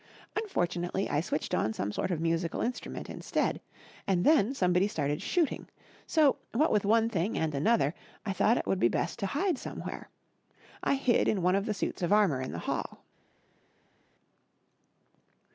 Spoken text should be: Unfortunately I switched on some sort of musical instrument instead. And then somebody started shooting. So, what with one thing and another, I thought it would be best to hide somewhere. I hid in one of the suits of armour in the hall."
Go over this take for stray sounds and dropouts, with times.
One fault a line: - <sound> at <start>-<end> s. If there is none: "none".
none